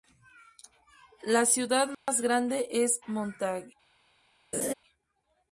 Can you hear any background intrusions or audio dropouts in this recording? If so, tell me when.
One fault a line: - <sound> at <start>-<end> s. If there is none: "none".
- dropout at 1.9-2.1 s
- laugh at 4.5-4.7 s